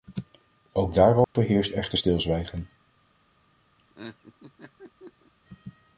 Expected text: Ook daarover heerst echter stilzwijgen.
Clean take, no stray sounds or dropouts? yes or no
no